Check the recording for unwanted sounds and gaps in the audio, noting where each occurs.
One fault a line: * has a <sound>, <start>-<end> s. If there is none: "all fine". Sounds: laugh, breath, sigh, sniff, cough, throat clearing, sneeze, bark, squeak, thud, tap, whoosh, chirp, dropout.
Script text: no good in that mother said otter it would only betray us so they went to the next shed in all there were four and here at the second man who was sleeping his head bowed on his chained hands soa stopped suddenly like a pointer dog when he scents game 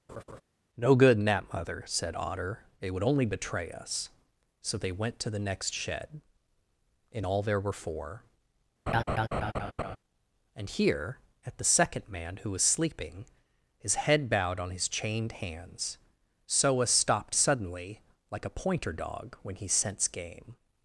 * has a laugh, 0.1-0.4 s
* has a laugh, 8.9-10.0 s